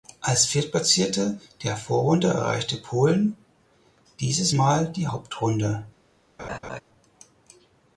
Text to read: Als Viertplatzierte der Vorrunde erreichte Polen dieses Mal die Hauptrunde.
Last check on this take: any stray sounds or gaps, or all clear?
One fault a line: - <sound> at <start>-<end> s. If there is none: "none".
- laugh at 6.4-6.8 s